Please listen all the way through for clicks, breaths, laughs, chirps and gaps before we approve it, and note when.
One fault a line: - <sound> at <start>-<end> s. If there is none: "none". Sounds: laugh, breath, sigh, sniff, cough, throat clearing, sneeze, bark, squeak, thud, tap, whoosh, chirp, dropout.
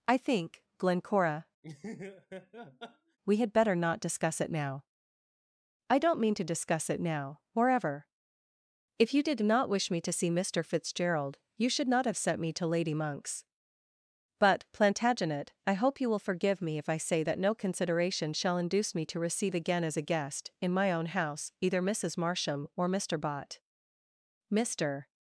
- laugh at 1.6-3.2 s